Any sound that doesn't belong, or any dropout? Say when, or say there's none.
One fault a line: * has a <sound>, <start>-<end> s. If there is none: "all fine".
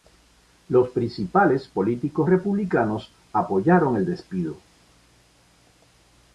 all fine